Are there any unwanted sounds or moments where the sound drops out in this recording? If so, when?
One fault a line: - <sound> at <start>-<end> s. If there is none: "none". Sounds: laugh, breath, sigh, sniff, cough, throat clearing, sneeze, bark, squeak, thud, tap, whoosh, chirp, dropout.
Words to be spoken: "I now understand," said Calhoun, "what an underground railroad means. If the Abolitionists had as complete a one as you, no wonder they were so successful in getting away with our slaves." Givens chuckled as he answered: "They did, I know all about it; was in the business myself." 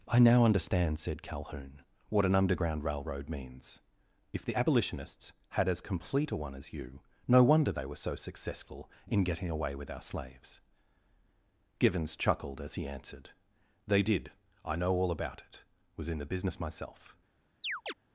- chirp at 17.6-17.9 s